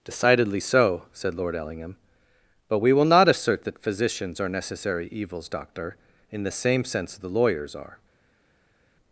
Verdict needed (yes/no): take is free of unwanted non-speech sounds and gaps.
yes